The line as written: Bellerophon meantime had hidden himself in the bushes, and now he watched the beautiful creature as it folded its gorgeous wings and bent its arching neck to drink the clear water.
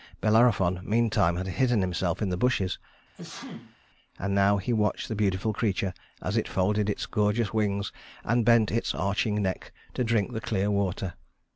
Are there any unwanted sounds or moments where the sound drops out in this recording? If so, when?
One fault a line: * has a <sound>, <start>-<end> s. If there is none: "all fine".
* has a sneeze, 3.1-3.8 s